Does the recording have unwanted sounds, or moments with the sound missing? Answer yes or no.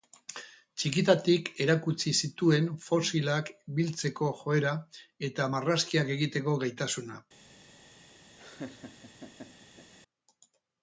yes